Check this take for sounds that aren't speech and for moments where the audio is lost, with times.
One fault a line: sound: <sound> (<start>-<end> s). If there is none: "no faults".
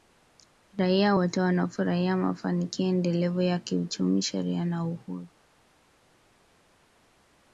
no faults